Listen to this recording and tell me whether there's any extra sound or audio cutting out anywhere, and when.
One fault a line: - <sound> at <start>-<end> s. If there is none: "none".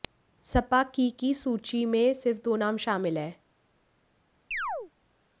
- chirp at 4.5-4.9 s